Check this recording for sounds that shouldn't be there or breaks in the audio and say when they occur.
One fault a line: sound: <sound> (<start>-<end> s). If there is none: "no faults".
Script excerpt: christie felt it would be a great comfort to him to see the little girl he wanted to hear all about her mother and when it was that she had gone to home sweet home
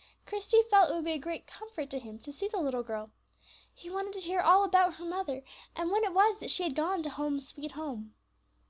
no faults